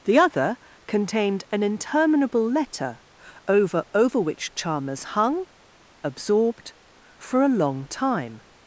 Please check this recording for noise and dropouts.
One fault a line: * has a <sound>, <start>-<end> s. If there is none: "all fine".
all fine